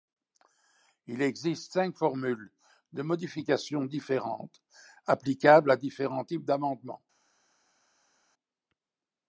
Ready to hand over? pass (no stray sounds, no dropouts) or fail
pass